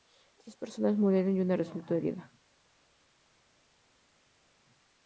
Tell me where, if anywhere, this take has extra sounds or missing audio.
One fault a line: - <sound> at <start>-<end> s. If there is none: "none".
none